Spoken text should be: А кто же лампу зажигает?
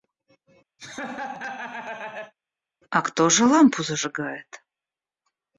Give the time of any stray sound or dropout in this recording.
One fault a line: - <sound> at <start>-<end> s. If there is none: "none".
- laugh at 0.8-2.3 s